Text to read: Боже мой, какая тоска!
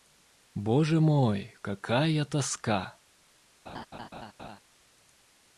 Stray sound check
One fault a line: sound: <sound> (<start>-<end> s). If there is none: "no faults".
sound: laugh (3.7-4.6 s)